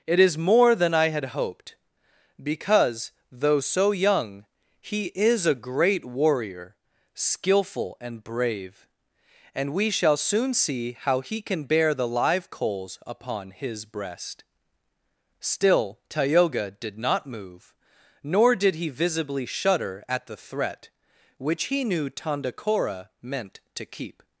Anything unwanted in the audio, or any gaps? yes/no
no